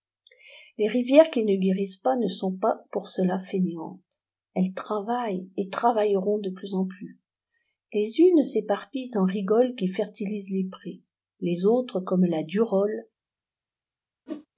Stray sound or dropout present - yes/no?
yes